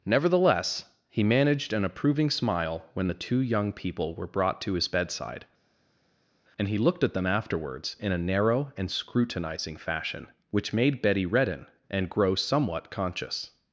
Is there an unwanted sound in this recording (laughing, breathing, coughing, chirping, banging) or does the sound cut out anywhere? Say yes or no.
no